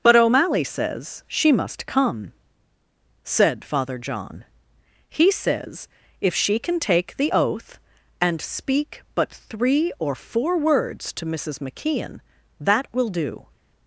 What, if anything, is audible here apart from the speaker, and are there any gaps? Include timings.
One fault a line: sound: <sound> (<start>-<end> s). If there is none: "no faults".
no faults